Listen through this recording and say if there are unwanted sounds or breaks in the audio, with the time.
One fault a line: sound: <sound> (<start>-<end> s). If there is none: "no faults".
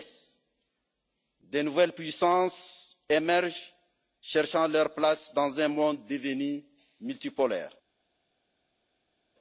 no faults